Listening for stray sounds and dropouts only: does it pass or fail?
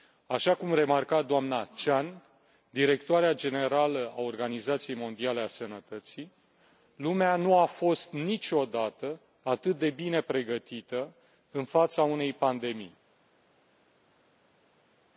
pass